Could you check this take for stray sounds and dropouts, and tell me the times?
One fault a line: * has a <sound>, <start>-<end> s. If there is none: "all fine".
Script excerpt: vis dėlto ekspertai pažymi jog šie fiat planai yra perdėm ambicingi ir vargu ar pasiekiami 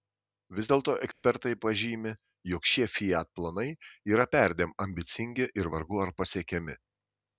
* has a dropout, 1.1-1.2 s